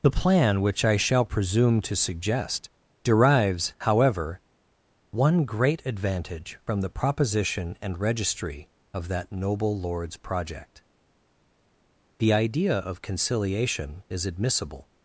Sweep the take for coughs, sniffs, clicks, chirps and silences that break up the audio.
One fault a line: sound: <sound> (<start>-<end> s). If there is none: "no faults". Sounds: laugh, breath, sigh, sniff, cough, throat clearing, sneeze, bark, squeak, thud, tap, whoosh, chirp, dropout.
no faults